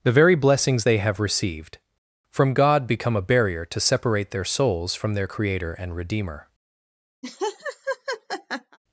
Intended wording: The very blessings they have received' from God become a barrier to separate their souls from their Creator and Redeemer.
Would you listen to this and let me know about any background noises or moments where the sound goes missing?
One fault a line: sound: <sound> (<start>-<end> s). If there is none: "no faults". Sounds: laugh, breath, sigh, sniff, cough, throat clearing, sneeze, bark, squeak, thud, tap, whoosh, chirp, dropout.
sound: laugh (7.2-8.8 s)